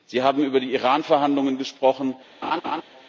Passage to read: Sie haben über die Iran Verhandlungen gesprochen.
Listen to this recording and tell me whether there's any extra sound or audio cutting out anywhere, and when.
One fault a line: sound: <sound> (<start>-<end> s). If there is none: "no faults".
sound: laugh (2.4-2.8 s)